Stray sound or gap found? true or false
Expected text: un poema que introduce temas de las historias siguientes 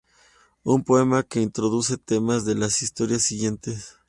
false